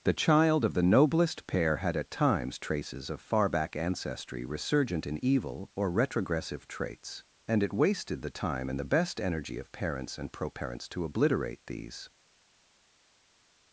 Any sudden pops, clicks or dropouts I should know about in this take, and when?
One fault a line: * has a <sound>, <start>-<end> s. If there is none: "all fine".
all fine